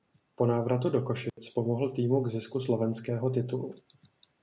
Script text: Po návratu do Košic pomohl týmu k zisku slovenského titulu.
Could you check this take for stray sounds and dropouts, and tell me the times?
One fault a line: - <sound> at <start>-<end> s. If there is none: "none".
- dropout at 1.3-1.4 s